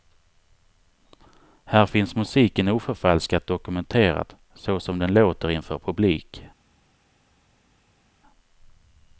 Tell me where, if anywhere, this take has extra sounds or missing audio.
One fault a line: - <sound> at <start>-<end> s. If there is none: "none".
none